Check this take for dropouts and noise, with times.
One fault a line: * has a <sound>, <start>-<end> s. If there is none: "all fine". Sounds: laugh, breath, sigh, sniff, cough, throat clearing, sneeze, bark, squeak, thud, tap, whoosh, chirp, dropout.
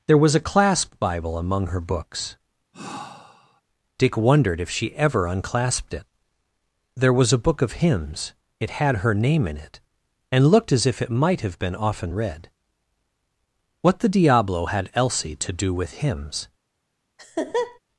* has a sigh, 2.7-3.6 s
* has a laugh, 17.2-17.8 s